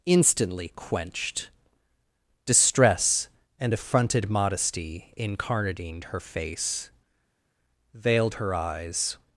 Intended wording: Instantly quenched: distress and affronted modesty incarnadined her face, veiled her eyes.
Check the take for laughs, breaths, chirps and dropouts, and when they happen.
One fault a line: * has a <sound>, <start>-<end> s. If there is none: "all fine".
all fine